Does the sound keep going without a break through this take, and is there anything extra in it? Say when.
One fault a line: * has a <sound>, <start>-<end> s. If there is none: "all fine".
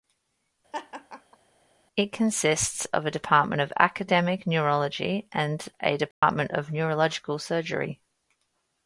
* has a laugh, 0.7-1.4 s
* has a dropout, 6.1-6.2 s